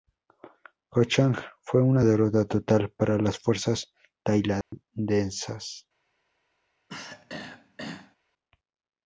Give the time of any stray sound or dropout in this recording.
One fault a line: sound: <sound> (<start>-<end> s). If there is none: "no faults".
sound: dropout (4.6-4.7 s)
sound: throat clearing (6.9-8.2 s)